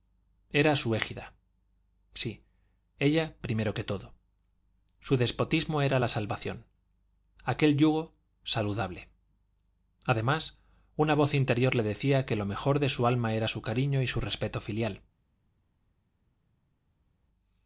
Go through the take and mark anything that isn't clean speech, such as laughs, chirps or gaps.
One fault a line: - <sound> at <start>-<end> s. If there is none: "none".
none